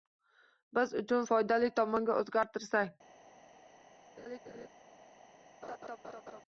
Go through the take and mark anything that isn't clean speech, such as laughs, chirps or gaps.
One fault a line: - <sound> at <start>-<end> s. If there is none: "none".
- laugh at 4.2-4.7 s
- laugh at 5.6-6.4 s